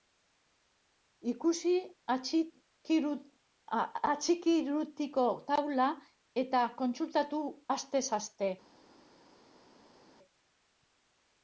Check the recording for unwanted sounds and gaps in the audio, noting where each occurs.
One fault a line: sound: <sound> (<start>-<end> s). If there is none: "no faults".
no faults